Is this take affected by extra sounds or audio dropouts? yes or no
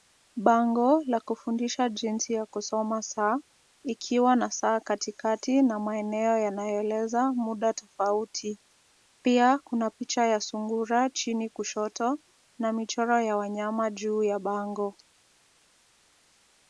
no